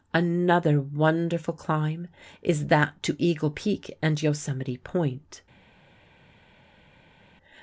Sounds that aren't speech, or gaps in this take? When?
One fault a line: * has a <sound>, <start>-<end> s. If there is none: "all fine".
all fine